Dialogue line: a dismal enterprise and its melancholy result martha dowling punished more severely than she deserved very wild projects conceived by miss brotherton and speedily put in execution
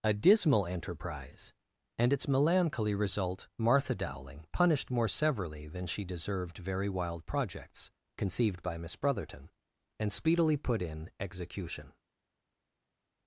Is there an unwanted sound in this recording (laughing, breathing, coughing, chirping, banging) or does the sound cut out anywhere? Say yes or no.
no